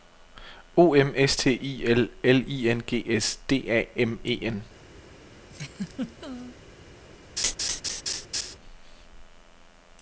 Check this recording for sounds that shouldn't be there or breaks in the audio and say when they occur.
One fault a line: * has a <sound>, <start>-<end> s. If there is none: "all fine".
* has a laugh, 5.5-6.6 s
* has a laugh, 7.4-8.6 s